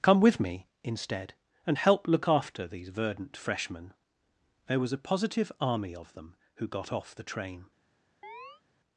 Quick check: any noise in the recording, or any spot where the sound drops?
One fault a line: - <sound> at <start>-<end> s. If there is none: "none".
- chirp at 8.2-8.6 s